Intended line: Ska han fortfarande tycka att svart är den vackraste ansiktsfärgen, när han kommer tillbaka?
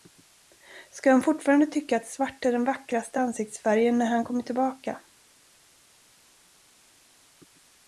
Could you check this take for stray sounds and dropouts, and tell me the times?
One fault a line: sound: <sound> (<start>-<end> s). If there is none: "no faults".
no faults